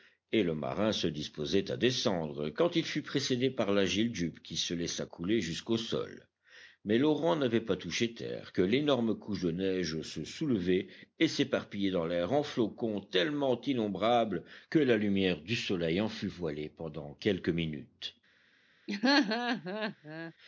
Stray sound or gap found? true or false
true